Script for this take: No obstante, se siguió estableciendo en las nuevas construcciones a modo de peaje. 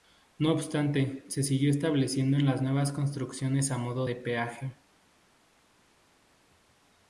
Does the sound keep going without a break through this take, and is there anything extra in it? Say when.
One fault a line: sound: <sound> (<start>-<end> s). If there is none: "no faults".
no faults